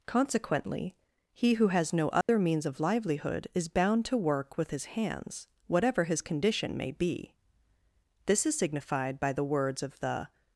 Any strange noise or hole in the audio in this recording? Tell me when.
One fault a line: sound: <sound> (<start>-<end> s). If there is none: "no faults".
sound: dropout (2.2-2.3 s)